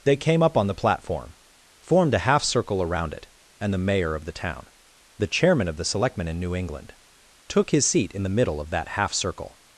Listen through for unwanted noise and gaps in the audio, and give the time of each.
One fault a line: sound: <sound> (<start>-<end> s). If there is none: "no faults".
no faults